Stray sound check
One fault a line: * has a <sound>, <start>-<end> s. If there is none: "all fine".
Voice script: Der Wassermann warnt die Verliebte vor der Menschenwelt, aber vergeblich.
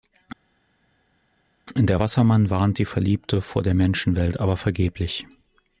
all fine